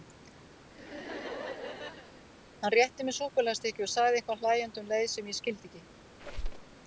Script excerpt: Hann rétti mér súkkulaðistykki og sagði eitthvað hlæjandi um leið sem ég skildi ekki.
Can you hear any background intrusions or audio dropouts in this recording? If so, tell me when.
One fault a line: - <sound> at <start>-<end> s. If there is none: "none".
- laugh at 0.7-2.3 s
- squeak at 6.2-6.7 s